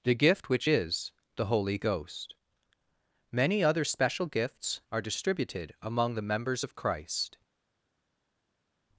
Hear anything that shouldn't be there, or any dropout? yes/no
no